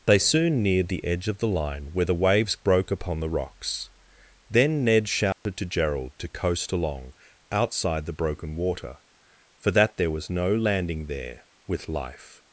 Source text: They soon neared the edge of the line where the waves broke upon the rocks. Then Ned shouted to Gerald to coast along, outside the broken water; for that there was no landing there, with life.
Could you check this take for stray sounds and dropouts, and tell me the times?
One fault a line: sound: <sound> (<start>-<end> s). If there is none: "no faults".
sound: dropout (5.3-5.5 s)